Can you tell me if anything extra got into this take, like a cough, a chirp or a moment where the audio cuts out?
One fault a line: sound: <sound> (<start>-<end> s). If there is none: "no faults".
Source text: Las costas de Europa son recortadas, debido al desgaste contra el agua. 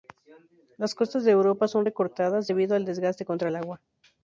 no faults